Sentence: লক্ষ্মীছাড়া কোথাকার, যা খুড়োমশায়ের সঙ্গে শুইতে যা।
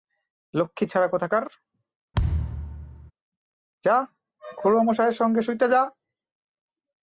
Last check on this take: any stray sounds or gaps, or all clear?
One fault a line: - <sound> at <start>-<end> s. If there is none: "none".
- thud at 2.1-3.1 s